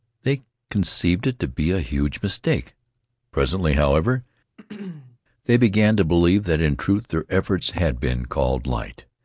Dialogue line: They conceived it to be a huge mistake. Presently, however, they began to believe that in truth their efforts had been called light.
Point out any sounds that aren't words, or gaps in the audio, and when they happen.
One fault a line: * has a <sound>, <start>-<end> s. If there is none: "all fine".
* has a throat clearing, 4.6-5.2 s